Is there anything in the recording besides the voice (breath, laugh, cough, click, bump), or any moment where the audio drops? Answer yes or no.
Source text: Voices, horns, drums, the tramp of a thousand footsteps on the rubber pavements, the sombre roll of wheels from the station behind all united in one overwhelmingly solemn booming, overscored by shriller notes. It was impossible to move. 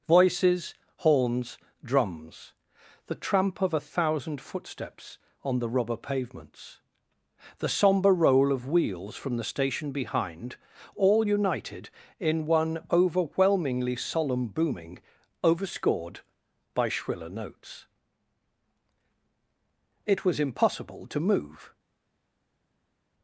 no